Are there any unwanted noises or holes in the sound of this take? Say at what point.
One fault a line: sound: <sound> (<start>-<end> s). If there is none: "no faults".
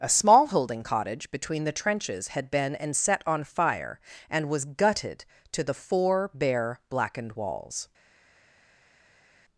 no faults